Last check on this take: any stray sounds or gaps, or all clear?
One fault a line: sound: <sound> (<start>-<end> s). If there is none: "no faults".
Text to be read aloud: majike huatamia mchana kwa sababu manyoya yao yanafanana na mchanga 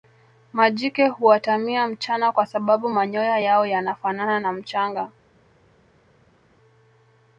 no faults